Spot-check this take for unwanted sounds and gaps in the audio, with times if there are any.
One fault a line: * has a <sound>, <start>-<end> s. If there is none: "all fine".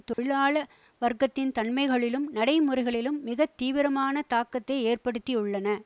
* has a dropout, 0.1-0.2 s